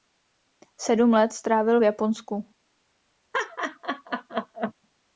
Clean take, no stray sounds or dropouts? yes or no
no